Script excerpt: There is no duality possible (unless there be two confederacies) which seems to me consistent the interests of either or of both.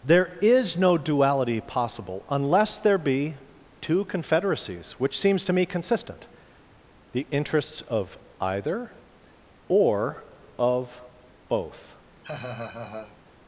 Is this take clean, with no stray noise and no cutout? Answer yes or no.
no